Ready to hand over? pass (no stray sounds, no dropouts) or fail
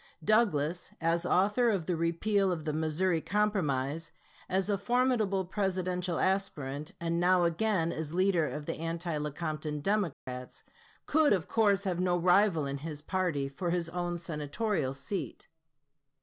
fail